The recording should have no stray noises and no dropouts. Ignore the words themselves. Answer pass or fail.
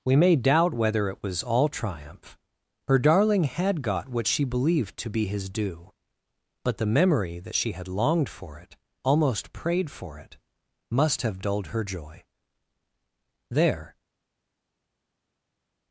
pass